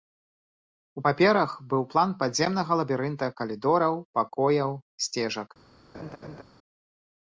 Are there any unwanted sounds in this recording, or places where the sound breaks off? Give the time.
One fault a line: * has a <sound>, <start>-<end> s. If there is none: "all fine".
* has a laugh, 5.9-6.4 s